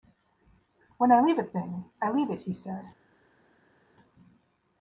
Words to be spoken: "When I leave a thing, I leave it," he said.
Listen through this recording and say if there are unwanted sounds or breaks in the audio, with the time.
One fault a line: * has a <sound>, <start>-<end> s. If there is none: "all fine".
all fine